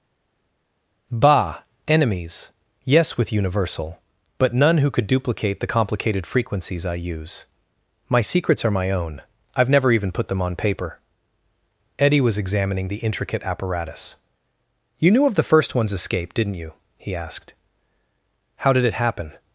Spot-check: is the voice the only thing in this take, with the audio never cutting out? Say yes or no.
yes